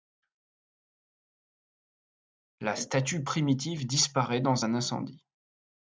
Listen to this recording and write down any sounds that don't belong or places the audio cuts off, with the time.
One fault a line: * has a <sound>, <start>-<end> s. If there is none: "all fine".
all fine